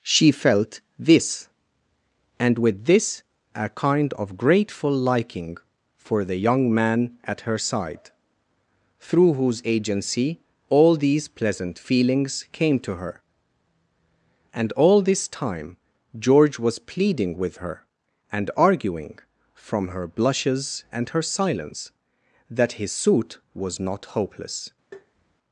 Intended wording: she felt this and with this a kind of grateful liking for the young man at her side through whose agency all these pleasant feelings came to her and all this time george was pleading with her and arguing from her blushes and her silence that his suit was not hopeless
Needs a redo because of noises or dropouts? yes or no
yes